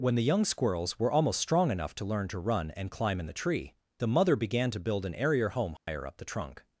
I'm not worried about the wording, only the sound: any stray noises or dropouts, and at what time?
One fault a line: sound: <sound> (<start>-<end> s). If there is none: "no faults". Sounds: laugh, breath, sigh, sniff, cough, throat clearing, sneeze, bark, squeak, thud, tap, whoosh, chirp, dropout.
sound: dropout (5.8-5.9 s)